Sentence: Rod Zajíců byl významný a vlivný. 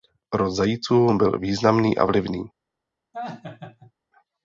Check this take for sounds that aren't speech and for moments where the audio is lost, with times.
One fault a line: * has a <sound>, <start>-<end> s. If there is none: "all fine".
* has a laugh, 3.1-3.9 s